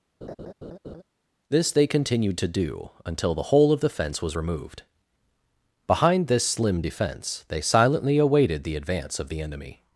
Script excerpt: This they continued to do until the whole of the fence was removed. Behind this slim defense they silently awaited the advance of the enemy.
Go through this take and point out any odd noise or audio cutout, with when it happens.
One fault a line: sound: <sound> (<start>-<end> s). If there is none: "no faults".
sound: laugh (0.2-1.0 s)